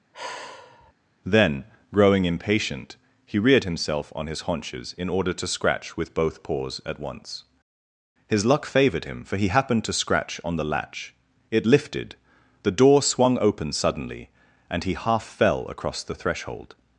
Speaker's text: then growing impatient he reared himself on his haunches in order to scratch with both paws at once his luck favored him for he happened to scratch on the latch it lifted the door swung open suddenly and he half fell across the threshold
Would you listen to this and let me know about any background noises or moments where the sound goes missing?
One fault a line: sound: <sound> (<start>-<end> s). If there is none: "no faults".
sound: sigh (0.1-0.9 s)